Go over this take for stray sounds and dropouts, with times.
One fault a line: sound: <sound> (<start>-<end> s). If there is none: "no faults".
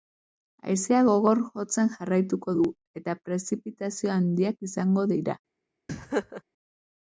sound: laugh (5.9-6.4 s)